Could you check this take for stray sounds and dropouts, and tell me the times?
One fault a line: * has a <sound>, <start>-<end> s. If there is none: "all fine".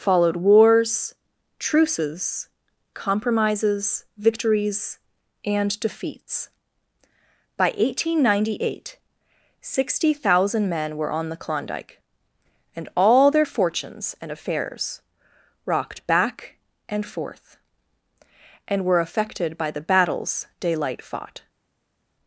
all fine